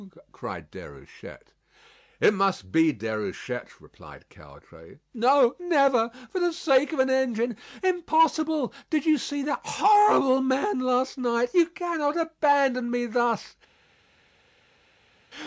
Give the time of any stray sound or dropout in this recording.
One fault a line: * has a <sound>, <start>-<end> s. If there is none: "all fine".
all fine